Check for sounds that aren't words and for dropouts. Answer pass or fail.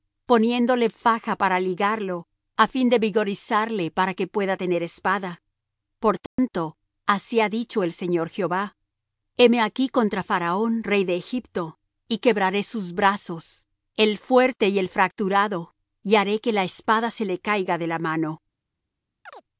fail